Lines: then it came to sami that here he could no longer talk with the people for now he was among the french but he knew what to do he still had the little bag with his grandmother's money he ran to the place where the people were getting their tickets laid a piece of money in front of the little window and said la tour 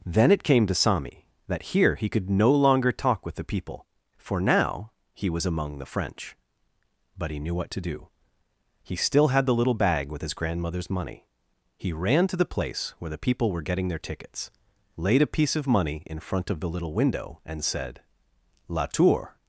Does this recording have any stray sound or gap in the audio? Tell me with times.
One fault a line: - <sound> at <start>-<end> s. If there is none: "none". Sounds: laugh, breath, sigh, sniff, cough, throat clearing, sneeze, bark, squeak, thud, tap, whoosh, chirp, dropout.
none